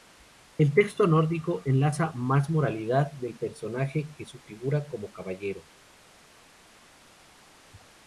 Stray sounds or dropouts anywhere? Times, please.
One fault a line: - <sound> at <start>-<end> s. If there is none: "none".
none